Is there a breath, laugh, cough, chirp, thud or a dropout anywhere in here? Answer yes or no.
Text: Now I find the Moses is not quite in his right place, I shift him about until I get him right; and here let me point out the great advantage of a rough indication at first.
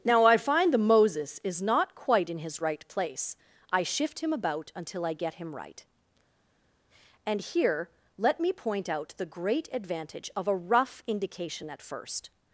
no